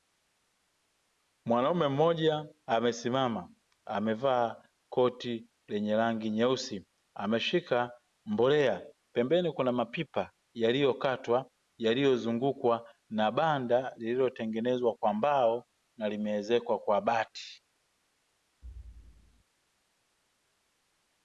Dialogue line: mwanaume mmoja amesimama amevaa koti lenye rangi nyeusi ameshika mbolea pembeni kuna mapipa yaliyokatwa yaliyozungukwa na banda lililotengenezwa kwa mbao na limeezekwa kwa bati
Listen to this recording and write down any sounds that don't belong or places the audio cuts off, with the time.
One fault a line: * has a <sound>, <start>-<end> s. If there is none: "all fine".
* has a thud, 18.6-19.4 s